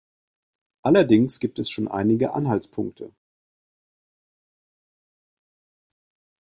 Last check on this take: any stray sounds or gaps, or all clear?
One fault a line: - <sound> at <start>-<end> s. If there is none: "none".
none